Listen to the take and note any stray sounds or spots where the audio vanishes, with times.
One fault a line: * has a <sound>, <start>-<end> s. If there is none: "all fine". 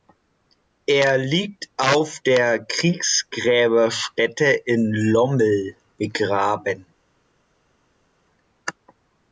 all fine